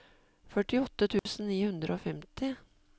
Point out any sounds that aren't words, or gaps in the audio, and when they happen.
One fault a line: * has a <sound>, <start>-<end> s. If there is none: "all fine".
* has a dropout, 1.2-1.3 s